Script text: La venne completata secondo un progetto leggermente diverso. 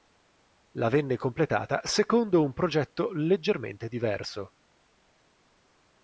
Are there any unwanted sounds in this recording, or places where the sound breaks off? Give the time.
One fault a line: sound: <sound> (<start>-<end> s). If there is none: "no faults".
no faults